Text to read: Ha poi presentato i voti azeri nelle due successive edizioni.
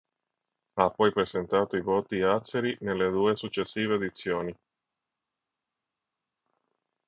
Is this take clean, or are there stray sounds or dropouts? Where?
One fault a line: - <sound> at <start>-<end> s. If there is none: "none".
none